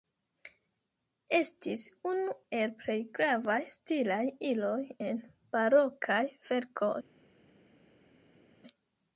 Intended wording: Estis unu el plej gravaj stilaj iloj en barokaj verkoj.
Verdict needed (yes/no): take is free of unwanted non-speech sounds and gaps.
yes